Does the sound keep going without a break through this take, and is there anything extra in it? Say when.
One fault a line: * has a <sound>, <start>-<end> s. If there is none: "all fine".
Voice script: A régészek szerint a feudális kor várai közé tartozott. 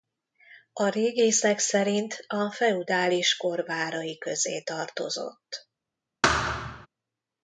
* has a thud, 6.2-6.9 s